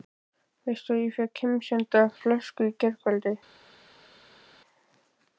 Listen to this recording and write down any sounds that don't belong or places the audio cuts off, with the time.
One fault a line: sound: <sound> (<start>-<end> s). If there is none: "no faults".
no faults